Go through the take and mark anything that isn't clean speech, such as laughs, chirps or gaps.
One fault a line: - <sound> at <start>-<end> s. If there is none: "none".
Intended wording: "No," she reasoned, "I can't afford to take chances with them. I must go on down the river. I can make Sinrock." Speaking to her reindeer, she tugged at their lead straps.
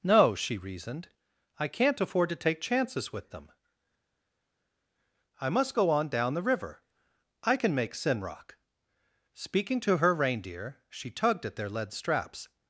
none